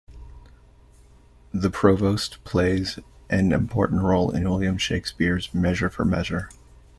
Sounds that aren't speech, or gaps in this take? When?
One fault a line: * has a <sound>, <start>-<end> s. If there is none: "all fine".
all fine